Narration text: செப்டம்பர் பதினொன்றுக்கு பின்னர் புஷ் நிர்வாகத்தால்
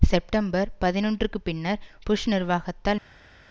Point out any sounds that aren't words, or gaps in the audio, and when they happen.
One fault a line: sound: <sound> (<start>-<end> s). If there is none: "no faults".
no faults